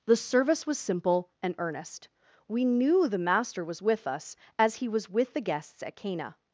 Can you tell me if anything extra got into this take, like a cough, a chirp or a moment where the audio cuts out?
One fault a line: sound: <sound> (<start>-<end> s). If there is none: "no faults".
no faults